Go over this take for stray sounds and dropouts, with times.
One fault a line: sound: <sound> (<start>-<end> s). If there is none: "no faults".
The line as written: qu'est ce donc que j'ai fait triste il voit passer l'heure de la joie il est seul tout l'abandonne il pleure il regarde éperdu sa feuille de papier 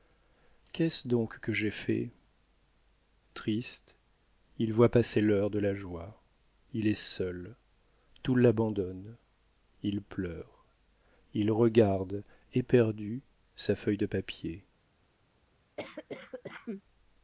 sound: cough (15.8-16.8 s)